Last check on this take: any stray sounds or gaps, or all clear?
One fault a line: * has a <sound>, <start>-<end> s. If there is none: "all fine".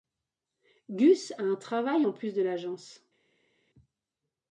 all fine